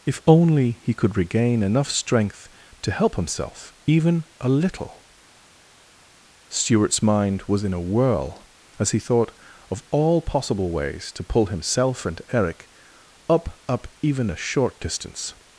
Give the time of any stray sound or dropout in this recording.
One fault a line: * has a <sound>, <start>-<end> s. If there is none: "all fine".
all fine